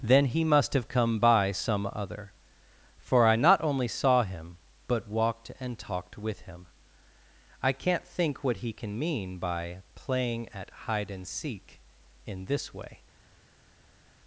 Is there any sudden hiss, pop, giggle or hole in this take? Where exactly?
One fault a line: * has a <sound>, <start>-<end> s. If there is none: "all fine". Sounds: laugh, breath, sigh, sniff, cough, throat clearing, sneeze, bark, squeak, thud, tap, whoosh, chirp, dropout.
all fine